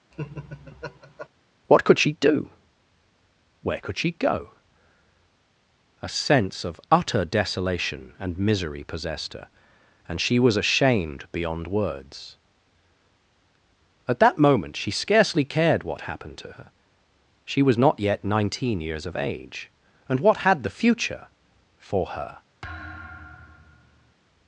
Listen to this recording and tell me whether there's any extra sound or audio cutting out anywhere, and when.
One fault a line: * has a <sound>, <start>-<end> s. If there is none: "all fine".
* has a laugh, 0.1-1.3 s
* has a thud, 22.6-24.1 s